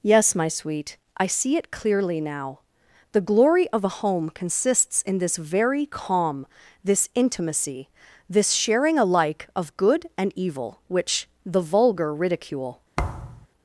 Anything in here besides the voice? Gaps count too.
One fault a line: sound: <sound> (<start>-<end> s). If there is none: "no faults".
sound: thud (13.0-13.5 s)